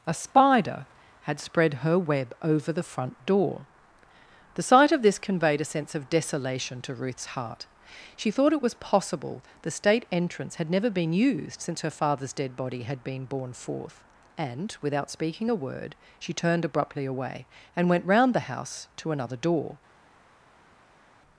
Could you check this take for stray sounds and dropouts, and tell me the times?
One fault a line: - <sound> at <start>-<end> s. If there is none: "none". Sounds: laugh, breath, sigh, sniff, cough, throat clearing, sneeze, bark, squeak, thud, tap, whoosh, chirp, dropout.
none